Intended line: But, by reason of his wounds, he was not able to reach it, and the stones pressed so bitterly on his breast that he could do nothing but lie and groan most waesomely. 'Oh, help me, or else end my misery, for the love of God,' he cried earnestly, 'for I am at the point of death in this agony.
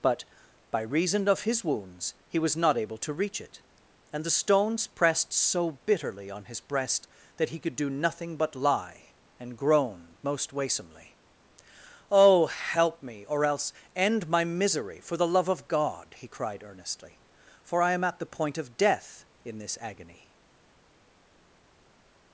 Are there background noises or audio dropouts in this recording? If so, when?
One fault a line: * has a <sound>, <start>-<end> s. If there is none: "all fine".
all fine